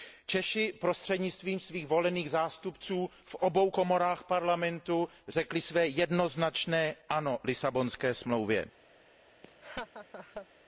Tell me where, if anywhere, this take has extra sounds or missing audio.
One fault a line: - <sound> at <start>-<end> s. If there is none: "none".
- laugh at 9.4-10.5 s